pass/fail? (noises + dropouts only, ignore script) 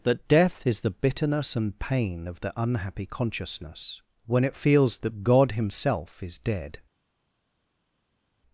pass